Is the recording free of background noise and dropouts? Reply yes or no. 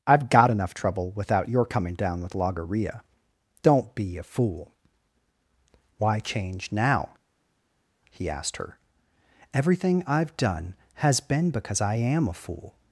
yes